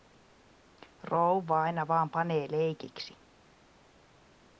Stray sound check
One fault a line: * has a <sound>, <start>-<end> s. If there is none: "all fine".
all fine